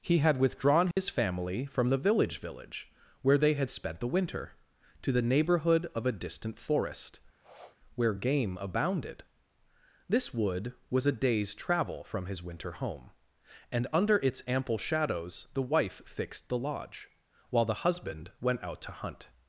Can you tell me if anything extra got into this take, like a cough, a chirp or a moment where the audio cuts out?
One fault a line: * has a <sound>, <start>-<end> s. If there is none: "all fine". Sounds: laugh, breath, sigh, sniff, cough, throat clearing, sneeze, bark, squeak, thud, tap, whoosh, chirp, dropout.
* has a dropout, 0.9-1.0 s
* has a sniff, 7.4-7.8 s